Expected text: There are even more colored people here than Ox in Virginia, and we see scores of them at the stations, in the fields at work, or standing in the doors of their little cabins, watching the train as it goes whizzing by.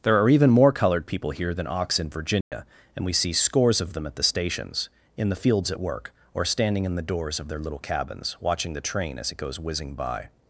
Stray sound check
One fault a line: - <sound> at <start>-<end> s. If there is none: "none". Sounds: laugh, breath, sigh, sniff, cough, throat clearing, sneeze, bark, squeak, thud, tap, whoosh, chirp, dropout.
- dropout at 2.4-2.5 s